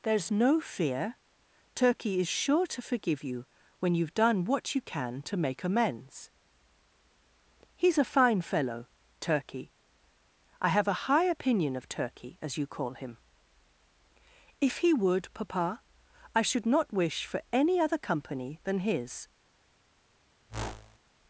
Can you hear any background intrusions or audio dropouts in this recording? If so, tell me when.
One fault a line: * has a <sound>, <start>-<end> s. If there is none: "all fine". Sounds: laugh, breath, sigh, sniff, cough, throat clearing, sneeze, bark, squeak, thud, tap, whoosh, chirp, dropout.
* has a whoosh, 20.5-21.0 s